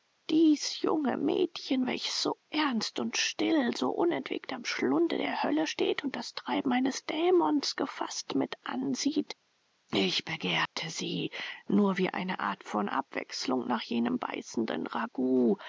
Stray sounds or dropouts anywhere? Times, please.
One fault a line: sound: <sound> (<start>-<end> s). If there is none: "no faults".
sound: dropout (10.7-10.8 s)